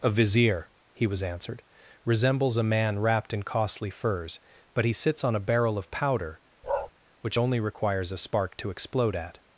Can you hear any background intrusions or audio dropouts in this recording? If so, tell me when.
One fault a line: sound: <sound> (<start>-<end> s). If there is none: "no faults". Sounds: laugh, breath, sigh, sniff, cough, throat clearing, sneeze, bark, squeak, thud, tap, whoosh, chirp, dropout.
sound: bark (6.6-6.9 s)